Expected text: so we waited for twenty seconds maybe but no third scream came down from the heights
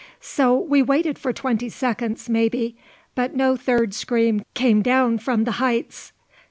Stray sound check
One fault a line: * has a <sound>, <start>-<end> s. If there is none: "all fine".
all fine